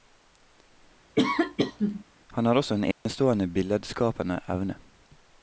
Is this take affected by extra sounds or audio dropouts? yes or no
yes